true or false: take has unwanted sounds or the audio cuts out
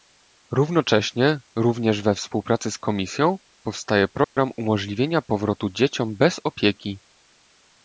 true